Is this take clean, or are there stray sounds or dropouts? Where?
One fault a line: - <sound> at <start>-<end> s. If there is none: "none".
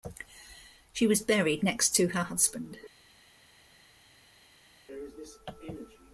none